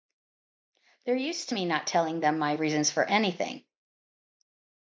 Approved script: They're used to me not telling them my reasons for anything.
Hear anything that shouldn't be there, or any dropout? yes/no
no